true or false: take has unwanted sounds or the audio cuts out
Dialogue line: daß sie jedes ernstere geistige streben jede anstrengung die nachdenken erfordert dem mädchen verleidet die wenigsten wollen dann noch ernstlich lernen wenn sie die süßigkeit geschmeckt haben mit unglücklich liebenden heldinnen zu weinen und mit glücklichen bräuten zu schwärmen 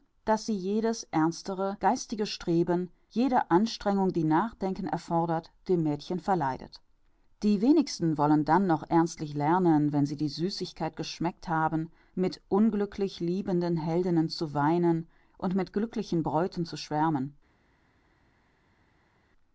false